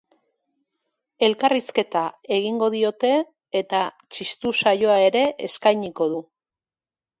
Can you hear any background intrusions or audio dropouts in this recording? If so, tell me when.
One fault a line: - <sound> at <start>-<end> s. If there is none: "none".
none